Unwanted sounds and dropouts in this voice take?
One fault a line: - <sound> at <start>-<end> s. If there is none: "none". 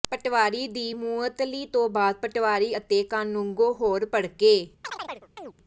- chirp at 4.8-5.5 s